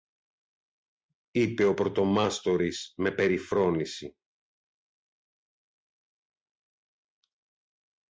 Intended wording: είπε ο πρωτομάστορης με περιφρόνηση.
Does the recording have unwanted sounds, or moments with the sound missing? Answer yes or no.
no